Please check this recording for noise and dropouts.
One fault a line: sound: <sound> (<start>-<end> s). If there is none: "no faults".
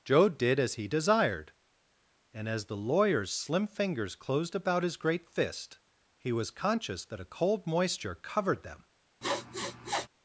sound: sniff (9.2-10.1 s)